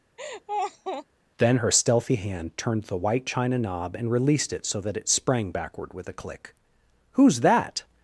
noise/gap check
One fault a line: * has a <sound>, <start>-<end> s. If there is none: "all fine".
* has a laugh, 0.2-1.1 s